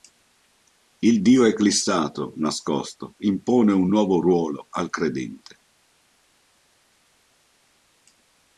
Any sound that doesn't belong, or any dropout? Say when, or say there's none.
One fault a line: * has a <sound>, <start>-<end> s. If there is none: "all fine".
all fine